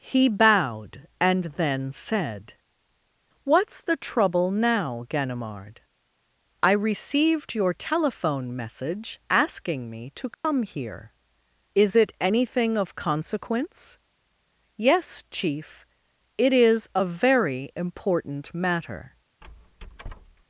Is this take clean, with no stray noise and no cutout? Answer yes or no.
no